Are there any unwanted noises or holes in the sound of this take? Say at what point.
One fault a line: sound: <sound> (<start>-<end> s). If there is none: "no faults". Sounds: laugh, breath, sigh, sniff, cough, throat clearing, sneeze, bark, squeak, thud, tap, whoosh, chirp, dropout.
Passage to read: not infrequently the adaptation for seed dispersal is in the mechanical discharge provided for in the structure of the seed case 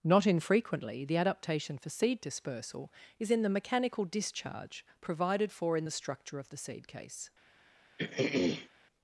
sound: throat clearing (8.0-8.7 s)